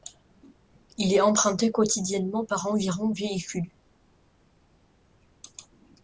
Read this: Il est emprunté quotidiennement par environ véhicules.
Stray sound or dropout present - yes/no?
no